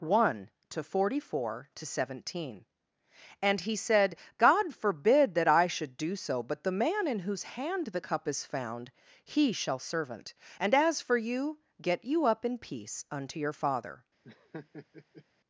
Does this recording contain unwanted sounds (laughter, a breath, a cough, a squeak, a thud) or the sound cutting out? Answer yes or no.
yes